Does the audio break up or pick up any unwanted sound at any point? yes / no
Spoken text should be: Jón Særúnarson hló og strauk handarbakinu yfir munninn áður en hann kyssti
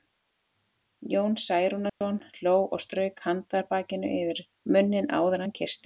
yes